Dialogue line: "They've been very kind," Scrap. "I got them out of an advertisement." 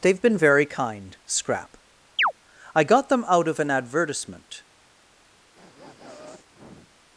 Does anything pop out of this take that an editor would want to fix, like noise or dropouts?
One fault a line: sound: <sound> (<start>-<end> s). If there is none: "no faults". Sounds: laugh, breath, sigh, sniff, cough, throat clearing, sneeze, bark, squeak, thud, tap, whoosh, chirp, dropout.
sound: chirp (2.2-2.3 s)
sound: sniff (5.5-7.0 s)